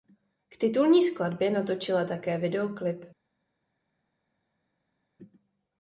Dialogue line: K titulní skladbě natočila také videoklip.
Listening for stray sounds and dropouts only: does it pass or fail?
pass